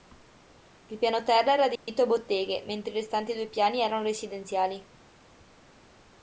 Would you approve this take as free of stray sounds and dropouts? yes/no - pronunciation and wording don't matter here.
no